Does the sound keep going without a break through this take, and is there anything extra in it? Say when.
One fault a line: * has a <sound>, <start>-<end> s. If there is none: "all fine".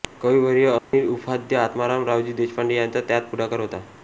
* has a dropout, 0.8-0.9 s